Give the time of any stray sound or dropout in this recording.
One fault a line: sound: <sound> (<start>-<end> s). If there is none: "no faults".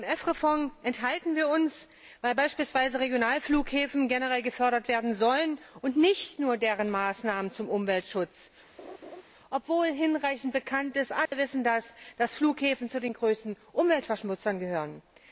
sound: laugh (8.8-9.2 s)
sound: dropout (11.3-11.3 s)